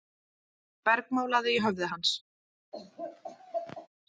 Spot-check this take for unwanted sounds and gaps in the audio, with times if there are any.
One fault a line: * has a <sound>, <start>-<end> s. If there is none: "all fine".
* has a laugh, 2.7-3.9 s